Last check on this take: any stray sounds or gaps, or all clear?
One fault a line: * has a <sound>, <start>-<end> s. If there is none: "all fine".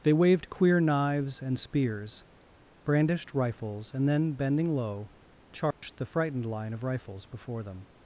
* has a dropout, 5.7-5.8 s